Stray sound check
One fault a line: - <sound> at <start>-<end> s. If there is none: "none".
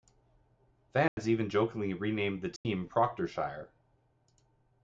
- dropout at 1.1-1.2 s
- dropout at 2.6-2.7 s